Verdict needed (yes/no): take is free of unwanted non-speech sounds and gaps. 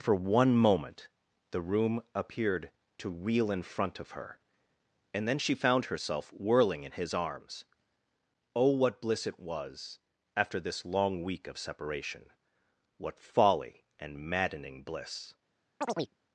no